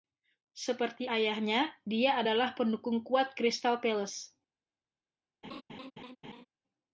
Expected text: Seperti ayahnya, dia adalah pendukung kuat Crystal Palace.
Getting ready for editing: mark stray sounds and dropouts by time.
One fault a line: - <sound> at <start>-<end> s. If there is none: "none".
- laugh at 5.4-6.5 s